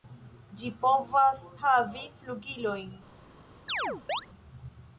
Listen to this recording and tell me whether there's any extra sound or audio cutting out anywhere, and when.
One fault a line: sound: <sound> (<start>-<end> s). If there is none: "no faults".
sound: chirp (3.7-4.3 s)